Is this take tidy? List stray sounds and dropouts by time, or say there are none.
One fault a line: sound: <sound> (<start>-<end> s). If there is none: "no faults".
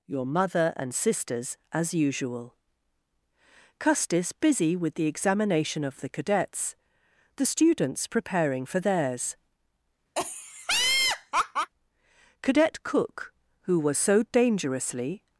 sound: laugh (10.2-11.7 s)